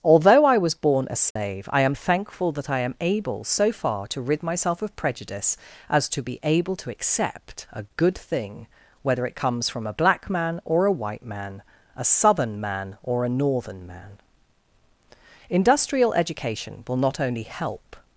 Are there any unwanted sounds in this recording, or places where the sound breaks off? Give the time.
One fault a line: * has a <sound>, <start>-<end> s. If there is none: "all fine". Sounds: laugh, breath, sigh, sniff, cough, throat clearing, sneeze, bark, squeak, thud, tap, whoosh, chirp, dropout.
* has a dropout, 1.3-1.4 s